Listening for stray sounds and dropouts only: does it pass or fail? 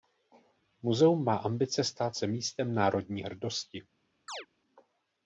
fail